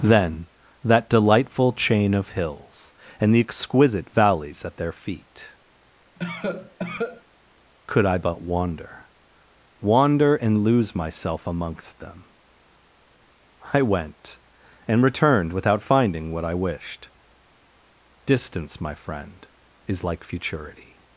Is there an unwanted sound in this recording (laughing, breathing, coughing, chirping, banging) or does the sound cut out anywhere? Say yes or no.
yes